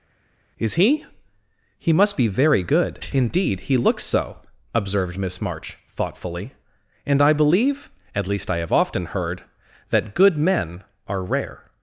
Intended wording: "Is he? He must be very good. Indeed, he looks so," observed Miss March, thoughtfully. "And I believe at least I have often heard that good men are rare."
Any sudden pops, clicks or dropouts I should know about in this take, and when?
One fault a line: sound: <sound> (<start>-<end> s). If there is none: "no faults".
no faults